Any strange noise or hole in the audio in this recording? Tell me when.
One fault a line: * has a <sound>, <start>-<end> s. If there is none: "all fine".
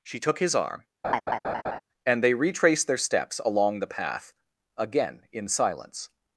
* has a laugh, 1.0-1.8 s